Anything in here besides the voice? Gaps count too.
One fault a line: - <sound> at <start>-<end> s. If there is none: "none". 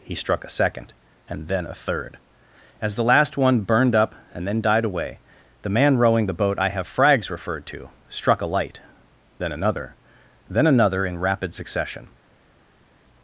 none